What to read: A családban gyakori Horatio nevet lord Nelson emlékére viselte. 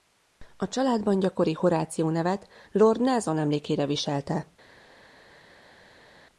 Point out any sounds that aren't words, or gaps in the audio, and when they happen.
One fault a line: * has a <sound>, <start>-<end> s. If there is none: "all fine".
all fine